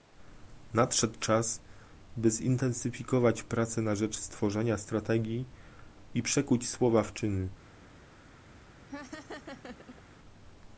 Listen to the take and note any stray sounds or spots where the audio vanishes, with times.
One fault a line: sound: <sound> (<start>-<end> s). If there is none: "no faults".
sound: laugh (8.9-10.0 s)